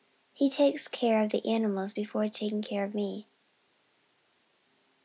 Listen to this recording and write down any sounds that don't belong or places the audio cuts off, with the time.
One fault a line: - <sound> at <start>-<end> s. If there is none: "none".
none